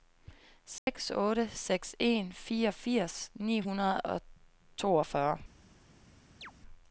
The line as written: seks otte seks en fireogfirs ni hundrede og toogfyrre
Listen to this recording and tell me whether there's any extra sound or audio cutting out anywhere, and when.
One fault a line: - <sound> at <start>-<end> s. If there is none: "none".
- dropout at 0.8-0.9 s
- chirp at 6.4-6.5 s